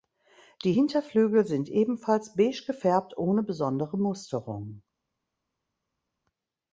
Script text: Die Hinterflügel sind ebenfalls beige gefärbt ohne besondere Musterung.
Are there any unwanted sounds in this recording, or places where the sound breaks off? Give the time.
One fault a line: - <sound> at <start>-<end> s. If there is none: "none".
none